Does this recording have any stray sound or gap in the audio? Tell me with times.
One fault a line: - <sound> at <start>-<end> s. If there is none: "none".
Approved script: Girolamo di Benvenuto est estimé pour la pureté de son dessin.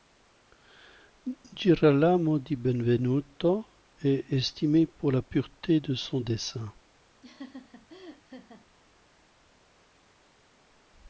- laugh at 7.2-8.7 s